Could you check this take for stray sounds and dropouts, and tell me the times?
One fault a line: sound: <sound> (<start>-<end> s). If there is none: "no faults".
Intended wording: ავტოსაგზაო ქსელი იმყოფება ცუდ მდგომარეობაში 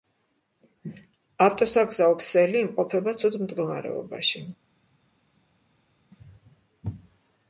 no faults